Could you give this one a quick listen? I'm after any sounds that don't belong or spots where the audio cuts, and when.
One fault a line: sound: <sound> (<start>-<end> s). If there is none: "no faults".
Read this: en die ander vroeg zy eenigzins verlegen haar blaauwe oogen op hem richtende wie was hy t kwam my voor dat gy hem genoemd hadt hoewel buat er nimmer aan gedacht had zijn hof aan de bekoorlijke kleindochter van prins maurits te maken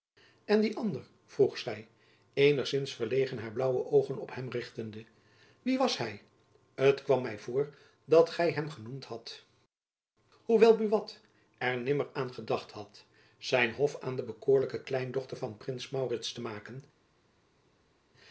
no faults